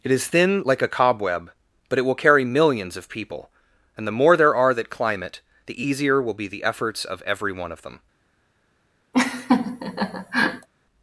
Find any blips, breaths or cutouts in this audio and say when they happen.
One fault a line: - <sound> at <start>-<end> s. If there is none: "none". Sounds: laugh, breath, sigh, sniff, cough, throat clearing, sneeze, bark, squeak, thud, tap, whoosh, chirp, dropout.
- laugh at 9.1-10.7 s